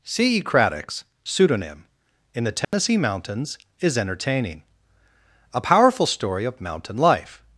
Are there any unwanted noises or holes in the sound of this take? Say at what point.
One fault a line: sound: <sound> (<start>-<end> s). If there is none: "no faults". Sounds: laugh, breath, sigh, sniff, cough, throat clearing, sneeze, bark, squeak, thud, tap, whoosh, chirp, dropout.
sound: dropout (2.6-2.7 s)